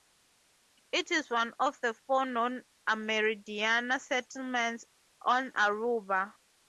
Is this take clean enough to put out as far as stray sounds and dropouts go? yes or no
yes